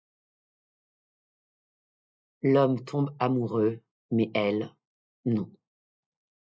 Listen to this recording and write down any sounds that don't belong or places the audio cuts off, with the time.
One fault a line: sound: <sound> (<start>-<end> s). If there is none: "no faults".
no faults